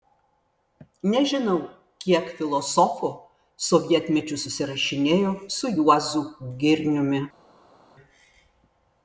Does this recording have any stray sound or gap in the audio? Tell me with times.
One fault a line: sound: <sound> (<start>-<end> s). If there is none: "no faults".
no faults